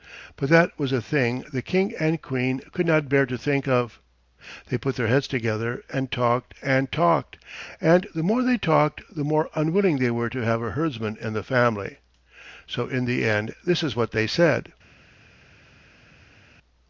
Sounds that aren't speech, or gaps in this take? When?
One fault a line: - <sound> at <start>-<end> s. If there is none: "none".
none